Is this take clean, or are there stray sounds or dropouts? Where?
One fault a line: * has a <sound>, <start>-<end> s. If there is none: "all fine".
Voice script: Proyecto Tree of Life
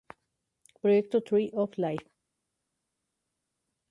all fine